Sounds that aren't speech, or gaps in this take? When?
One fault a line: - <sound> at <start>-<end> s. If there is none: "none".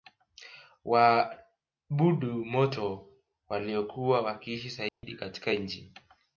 - dropout at 4.9-5.0 s